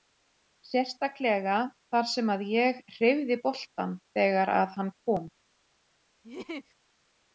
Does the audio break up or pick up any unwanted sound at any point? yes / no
yes